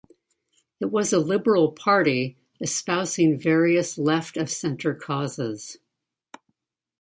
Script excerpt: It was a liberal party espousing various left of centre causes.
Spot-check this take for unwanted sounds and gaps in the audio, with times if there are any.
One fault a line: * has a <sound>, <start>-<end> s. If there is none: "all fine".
all fine